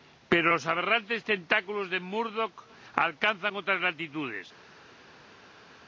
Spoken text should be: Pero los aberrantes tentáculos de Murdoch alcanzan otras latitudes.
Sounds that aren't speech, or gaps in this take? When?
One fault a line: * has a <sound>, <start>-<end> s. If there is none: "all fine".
all fine